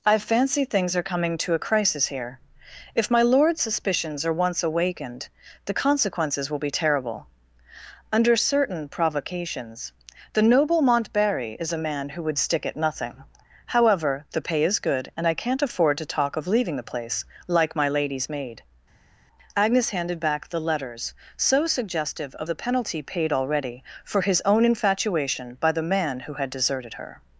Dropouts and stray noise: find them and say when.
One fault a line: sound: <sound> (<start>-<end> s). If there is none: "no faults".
no faults